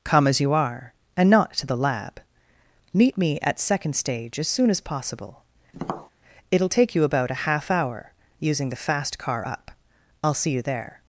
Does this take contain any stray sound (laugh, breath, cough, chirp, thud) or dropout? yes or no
yes